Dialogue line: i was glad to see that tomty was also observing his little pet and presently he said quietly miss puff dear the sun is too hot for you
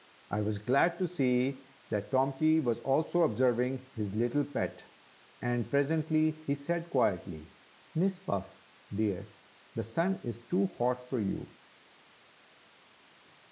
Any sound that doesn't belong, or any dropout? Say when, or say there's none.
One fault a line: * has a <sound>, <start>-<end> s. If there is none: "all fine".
all fine